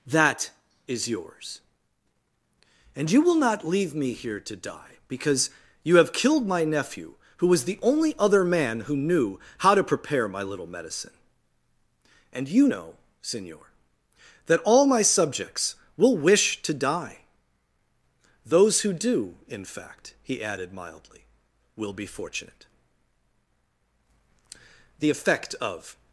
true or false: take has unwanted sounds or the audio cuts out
false